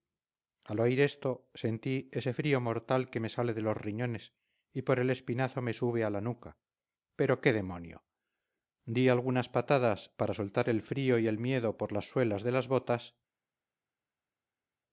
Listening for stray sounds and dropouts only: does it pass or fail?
pass